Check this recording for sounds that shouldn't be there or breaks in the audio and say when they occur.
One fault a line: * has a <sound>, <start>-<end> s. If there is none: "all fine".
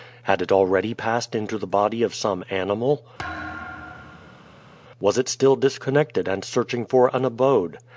* has a thud, 3.2-4.7 s